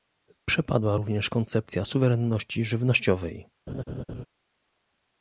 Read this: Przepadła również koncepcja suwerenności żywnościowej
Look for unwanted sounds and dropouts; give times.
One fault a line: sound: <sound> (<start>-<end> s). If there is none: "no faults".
sound: laugh (3.7-4.3 s)